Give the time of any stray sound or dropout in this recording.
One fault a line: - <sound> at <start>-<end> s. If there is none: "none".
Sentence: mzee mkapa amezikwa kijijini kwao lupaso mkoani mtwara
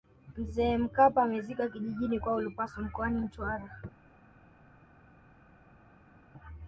none